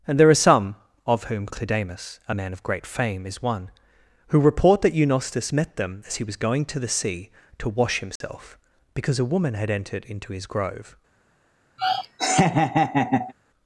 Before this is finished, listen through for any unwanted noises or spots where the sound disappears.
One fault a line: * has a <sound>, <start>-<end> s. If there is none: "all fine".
* has a dropout, 8.2-8.2 s
* has a laugh, 11.8-13.3 s